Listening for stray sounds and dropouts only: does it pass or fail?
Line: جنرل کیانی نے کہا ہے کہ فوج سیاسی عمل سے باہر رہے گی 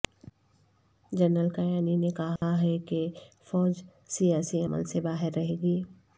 fail